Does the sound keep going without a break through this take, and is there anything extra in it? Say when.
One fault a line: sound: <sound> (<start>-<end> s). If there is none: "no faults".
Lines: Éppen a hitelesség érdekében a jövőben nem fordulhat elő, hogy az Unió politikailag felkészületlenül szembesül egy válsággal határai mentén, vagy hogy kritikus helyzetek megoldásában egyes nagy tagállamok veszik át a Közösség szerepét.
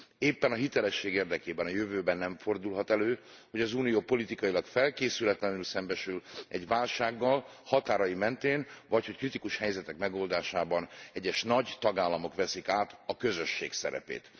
no faults